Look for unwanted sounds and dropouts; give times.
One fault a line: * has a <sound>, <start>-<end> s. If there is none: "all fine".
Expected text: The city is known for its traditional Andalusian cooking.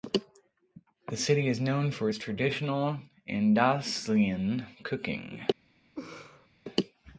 * has a laugh, 6.0-6.5 s